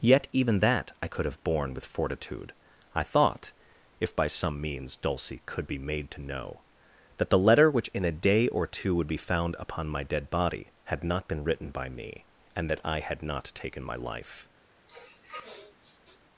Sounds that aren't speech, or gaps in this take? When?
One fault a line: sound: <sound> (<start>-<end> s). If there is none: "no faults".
sound: sniff (14.9-16.2 s)